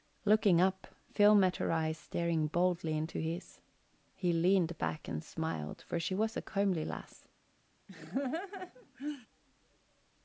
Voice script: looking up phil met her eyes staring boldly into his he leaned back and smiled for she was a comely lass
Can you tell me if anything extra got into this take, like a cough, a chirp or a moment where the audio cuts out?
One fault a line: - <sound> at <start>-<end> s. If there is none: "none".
- laugh at 7.9-9.3 s